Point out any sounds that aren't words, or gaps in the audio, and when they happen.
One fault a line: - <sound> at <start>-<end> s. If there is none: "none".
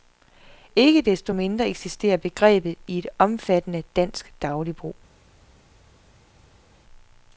none